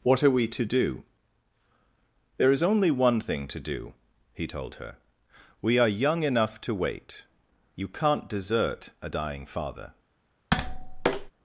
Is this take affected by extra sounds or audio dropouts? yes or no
yes